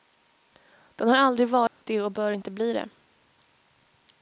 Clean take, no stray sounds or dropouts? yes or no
no